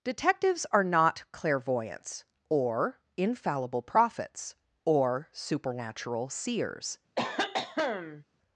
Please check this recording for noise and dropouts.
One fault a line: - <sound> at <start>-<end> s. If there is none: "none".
- cough at 7.2-8.2 s